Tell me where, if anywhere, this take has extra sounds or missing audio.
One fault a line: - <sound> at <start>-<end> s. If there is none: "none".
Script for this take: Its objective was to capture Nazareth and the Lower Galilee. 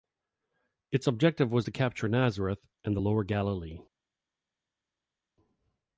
none